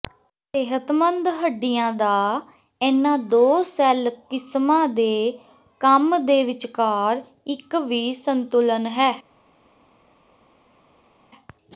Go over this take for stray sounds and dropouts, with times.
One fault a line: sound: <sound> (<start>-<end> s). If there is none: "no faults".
no faults